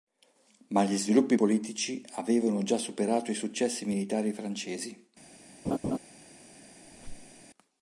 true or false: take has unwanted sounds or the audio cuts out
true